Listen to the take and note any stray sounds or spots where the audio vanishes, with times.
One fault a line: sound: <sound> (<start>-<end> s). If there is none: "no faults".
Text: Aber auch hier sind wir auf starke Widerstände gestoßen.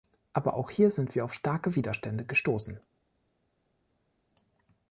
no faults